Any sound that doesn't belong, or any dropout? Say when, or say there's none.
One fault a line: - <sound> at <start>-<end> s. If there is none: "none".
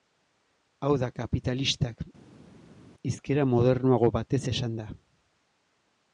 none